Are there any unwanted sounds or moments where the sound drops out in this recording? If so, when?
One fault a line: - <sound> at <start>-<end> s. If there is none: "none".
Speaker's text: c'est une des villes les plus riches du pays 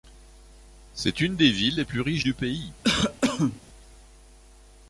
- cough at 2.8-3.6 s